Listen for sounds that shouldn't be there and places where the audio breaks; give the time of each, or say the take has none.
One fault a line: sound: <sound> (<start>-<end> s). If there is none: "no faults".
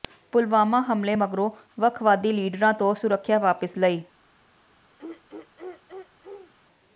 sound: throat clearing (5.0-6.5 s)